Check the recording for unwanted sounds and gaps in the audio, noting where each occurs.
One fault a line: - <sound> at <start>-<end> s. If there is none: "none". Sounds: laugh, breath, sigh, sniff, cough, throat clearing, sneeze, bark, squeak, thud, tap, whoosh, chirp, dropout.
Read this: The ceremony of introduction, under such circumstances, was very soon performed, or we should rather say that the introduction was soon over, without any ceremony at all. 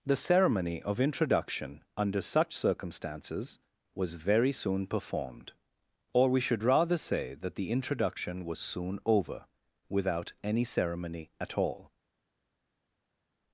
none